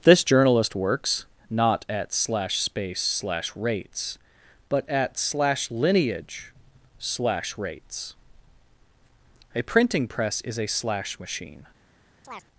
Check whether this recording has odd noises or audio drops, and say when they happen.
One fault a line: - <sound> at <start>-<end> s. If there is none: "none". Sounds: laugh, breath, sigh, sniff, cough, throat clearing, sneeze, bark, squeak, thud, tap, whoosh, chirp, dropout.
- chirp at 12.2-12.4 s